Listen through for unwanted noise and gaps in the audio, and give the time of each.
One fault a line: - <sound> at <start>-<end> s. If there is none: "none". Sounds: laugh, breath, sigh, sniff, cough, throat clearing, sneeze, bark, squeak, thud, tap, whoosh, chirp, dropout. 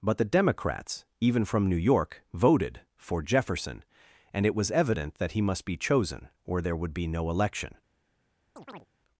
- chirp at 8.6-8.9 s